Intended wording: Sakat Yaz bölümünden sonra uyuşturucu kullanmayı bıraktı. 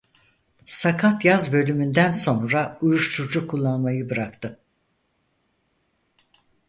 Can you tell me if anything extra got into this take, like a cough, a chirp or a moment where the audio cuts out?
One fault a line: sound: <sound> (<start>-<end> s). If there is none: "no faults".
no faults